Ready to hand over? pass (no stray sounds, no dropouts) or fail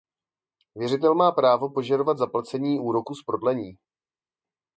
pass